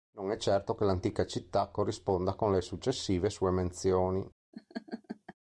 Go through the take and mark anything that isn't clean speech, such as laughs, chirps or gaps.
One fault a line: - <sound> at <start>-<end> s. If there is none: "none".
- laugh at 4.5-5.3 s